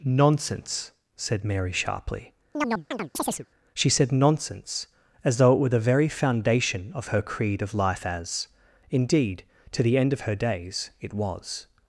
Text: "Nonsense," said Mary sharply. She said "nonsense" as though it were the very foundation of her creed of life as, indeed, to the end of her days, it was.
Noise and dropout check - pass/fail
fail